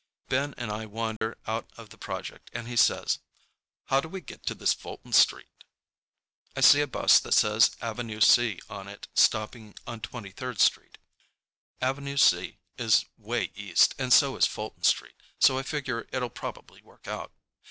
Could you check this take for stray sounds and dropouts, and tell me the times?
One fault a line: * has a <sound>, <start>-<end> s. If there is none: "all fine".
* has a dropout, 1.2-1.2 s